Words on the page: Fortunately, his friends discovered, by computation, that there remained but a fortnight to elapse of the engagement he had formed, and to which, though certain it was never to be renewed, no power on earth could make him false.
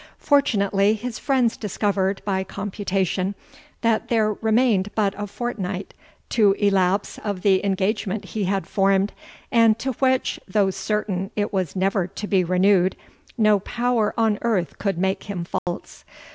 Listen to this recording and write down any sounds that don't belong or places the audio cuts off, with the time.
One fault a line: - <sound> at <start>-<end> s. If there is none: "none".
- dropout at 15.6-15.7 s